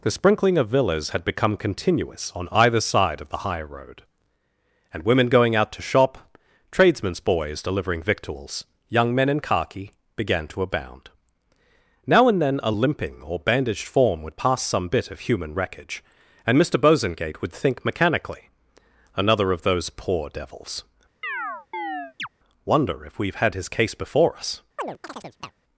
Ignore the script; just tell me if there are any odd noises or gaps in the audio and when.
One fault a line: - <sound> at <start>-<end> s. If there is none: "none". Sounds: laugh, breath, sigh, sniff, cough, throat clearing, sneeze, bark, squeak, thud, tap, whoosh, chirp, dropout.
- chirp at 21.2-22.3 s
- chirp at 24.8-25.5 s